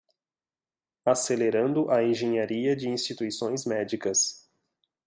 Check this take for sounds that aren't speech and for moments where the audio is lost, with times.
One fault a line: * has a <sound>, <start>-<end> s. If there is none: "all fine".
all fine